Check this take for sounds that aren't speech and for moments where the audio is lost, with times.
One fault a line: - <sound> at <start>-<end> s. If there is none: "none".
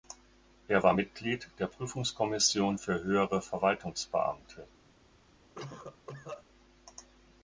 - cough at 5.5-6.4 s